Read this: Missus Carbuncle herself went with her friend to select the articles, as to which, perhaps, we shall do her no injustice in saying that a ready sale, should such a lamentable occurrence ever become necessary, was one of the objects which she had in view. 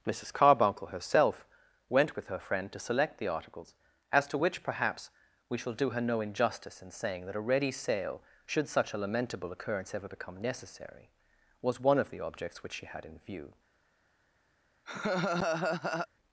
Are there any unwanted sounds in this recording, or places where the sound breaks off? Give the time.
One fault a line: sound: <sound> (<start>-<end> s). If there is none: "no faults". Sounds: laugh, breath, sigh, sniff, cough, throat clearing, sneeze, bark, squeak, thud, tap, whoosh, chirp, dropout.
sound: laugh (14.9-16.1 s)